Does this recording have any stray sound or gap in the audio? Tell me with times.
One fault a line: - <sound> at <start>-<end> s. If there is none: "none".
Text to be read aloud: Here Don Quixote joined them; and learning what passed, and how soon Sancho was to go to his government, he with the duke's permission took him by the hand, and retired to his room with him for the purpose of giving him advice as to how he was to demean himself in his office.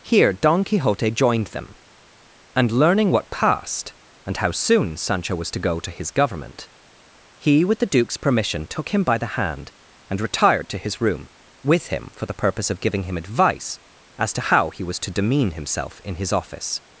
none